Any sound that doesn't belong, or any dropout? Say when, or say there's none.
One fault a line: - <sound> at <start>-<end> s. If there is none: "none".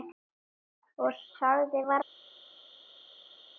none